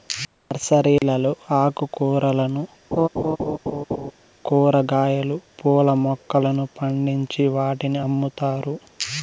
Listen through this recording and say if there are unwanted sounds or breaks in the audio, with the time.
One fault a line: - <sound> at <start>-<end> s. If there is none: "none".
- dropout at 1.0-1.0 s
- laugh at 2.9-4.1 s